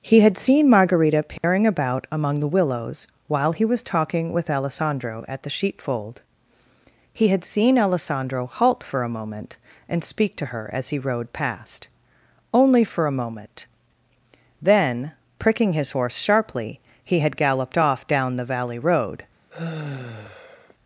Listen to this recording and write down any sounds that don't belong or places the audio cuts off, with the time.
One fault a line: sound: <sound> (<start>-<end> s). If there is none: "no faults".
sound: dropout (1.4-1.4 s)
sound: sigh (19.5-20.7 s)